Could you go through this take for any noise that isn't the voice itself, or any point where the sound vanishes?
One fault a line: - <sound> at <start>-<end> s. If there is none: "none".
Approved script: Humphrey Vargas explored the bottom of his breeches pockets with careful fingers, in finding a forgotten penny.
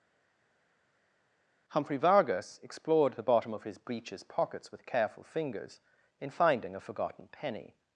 none